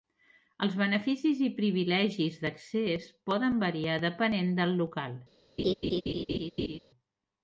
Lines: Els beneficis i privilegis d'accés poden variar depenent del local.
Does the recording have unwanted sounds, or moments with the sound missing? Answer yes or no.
yes